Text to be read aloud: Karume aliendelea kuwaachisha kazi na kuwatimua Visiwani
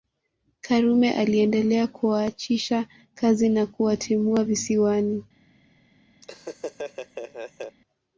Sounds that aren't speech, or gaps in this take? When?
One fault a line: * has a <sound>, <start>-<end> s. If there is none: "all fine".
* has a laugh, 6.2-7.8 s